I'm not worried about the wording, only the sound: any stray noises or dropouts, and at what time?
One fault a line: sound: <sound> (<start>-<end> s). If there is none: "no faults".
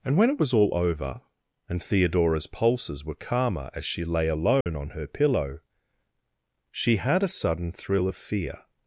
sound: dropout (4.6-4.7 s)